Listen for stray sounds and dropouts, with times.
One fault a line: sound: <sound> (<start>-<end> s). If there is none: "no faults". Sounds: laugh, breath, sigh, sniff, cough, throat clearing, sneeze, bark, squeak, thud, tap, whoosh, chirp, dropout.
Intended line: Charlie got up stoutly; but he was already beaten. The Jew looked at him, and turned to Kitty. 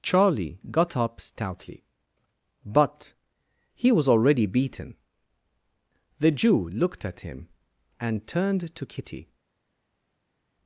no faults